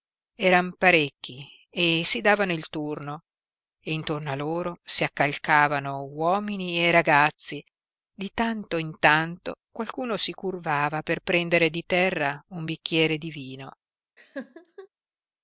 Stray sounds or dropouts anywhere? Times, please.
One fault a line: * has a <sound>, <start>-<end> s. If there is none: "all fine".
* has a laugh, 14.2-14.9 s